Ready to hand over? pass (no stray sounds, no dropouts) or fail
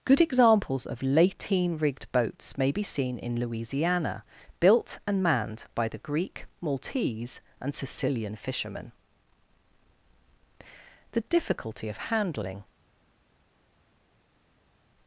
pass